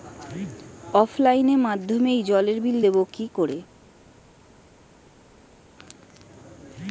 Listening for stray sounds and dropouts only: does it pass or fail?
pass